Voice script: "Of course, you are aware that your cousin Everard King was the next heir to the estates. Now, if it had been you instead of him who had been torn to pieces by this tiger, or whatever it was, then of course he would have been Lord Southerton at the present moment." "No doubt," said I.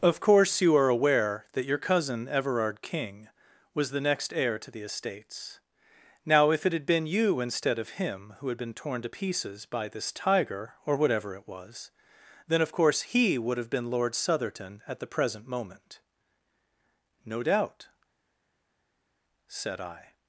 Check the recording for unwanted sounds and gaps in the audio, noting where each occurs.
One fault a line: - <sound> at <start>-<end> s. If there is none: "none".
none